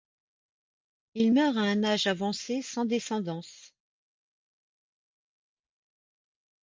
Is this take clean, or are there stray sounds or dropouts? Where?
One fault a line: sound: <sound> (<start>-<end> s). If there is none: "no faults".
no faults